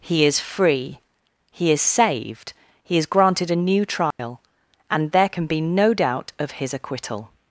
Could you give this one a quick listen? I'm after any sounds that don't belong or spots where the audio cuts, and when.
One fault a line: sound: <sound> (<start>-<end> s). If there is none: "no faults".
sound: dropout (4.1-4.2 s)